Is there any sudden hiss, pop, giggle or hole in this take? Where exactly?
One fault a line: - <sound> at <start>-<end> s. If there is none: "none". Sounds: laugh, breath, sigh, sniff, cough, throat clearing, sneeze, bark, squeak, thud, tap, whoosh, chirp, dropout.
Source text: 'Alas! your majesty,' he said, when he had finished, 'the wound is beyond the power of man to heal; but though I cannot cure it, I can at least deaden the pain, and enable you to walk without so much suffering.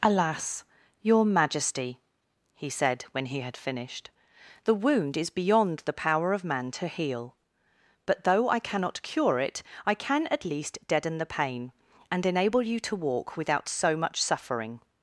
none